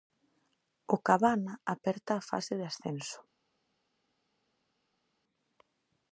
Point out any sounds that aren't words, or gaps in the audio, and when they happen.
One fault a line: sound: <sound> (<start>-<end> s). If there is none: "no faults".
no faults